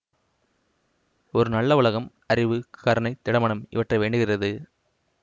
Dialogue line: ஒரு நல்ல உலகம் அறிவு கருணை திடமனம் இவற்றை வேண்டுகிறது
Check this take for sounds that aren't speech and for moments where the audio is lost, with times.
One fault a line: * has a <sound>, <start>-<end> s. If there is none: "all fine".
all fine